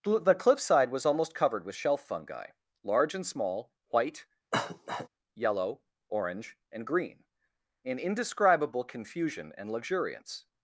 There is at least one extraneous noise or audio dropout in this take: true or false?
true